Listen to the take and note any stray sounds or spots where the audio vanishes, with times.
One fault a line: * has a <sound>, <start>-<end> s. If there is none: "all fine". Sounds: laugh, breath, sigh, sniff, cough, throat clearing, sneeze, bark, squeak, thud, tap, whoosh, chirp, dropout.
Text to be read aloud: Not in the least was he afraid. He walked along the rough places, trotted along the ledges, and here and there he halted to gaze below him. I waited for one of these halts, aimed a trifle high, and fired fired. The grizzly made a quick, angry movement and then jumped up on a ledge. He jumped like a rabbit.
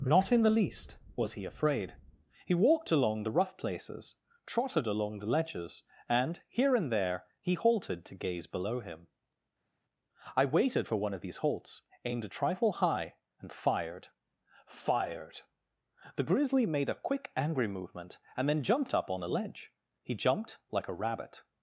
all fine